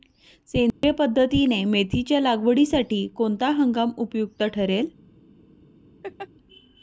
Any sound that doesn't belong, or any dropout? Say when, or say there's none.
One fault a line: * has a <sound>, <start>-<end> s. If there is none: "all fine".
* has a dropout, 0.7-0.8 s
* has a laugh, 6.0-6.3 s